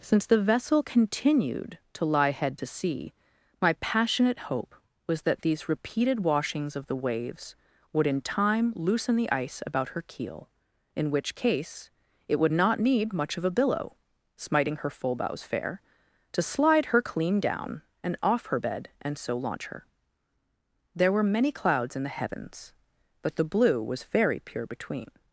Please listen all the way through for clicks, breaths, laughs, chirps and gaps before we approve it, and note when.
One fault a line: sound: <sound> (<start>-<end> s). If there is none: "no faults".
no faults